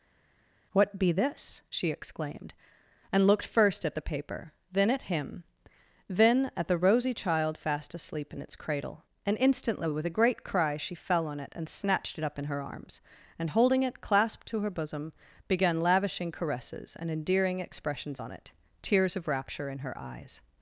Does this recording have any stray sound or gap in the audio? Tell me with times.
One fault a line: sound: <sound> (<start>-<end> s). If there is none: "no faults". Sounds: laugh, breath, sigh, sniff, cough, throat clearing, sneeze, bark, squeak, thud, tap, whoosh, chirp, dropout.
no faults